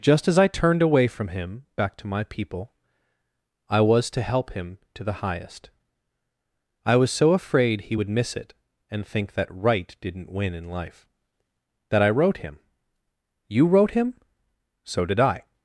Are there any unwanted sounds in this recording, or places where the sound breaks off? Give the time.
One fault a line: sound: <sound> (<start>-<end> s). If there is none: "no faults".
no faults